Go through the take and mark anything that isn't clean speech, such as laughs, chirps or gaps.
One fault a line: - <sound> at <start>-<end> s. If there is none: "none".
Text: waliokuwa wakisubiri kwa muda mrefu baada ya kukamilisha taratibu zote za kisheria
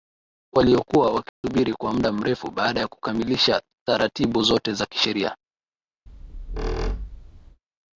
- dropout at 1.3-1.4 s
- squeak at 6.1-7.6 s